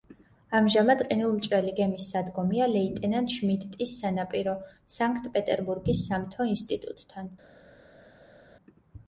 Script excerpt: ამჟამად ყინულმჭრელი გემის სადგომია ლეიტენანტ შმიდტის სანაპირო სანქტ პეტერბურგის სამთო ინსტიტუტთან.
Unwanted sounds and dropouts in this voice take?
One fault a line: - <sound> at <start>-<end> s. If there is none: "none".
none